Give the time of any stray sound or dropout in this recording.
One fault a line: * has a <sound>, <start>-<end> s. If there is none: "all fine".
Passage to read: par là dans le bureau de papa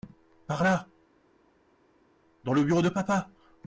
all fine